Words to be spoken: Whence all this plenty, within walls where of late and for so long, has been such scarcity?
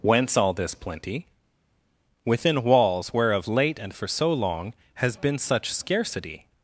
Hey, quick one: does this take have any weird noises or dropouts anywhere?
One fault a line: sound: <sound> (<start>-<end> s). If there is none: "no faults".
no faults